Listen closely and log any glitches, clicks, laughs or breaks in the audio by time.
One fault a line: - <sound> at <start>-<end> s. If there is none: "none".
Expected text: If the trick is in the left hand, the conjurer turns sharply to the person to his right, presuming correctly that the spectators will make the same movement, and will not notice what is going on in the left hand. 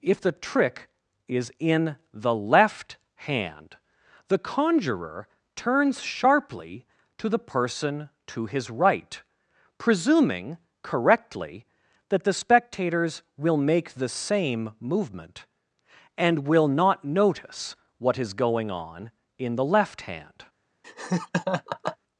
- laugh at 20.8-22.0 s